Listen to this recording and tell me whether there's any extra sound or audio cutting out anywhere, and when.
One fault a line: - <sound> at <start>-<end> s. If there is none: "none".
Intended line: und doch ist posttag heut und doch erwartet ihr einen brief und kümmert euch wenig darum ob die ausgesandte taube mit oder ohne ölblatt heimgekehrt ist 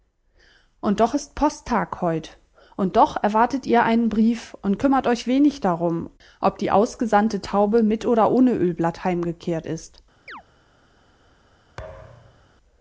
- chirp at 10.3-10.4 s
- thud at 11.8-12.5 s